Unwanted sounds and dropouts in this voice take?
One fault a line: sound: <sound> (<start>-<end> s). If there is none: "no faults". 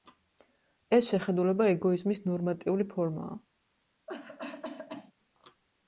sound: cough (4.1-5.1 s)